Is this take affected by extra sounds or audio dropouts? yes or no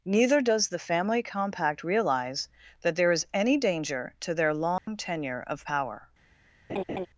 yes